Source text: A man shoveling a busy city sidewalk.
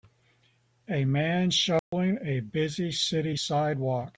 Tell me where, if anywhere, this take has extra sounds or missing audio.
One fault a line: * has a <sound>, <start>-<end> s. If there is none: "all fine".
* has a dropout, 1.8-1.9 s